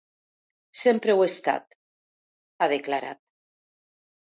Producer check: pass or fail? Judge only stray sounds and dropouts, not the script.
pass